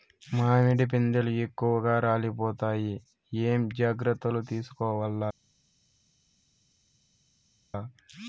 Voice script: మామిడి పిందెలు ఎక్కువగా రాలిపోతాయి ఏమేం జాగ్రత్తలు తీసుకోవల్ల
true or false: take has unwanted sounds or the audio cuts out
false